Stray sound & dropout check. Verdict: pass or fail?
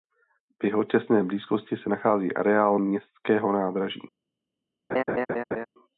fail